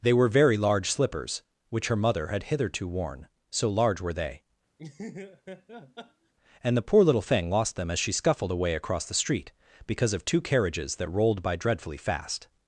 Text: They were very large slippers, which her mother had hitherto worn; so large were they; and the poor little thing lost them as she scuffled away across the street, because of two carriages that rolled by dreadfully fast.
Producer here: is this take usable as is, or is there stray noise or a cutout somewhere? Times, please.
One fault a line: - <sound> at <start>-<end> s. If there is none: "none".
- laugh at 4.8-6.3 s